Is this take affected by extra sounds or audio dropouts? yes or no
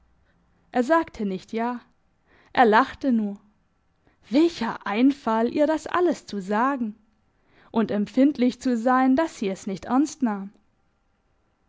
no